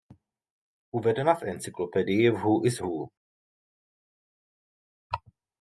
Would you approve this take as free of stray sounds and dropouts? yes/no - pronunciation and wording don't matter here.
yes